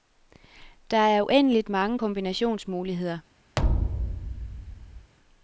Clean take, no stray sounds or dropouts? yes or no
no